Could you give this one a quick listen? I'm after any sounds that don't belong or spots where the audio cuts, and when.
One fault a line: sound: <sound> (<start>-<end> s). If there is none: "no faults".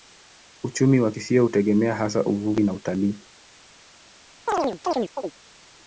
sound: chirp (4.5-5.3 s)